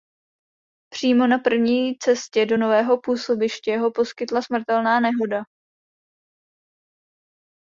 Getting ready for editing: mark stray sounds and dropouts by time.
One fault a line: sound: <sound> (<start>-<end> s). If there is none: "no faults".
no faults